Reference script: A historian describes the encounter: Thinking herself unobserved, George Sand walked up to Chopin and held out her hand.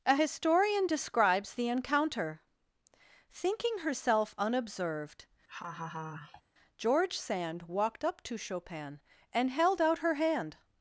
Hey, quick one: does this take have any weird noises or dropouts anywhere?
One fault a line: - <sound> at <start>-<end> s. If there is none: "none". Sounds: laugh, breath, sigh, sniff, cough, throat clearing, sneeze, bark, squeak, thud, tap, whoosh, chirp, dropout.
- laugh at 5.5-6.4 s